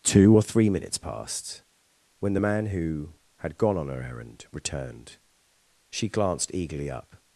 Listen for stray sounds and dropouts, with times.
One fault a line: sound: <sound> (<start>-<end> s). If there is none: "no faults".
no faults